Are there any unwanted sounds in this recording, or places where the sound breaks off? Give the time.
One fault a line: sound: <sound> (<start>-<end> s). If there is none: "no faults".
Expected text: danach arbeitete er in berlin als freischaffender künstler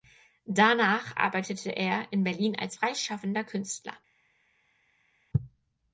no faults